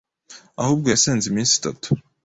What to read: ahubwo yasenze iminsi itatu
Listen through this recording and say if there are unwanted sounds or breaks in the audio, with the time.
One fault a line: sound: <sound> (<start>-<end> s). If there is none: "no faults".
no faults